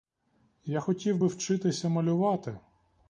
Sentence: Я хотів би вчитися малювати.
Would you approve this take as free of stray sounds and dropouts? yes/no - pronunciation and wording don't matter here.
yes